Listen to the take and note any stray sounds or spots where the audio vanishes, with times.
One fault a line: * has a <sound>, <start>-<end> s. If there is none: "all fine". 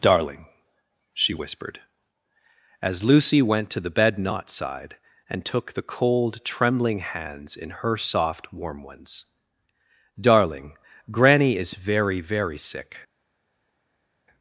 all fine